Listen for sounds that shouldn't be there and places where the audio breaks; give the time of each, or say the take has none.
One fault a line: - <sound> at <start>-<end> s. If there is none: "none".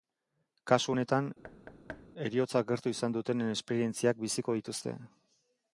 - thud at 1.4-2.1 s